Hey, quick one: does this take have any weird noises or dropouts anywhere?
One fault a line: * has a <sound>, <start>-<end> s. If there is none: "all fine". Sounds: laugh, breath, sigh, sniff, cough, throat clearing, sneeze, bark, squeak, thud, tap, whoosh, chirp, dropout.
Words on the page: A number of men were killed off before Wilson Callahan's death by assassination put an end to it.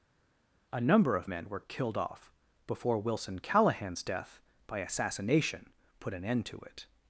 all fine